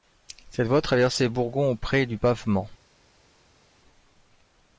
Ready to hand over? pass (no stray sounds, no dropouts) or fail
pass